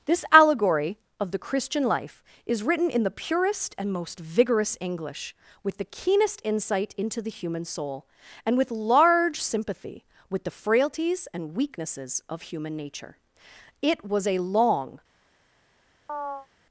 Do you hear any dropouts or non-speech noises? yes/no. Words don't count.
yes